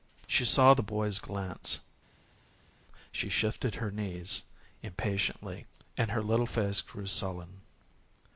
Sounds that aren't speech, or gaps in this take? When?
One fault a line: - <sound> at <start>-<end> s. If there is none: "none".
none